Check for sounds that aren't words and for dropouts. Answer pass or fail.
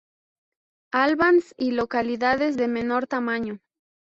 pass